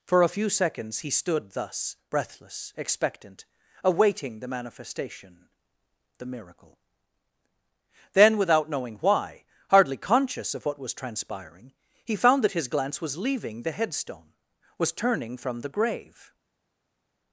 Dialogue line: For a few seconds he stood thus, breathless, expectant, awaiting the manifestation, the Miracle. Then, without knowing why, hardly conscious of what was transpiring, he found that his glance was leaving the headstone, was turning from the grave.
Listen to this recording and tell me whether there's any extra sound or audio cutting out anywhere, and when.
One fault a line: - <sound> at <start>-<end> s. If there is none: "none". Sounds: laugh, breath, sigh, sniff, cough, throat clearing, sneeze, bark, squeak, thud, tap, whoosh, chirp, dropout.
none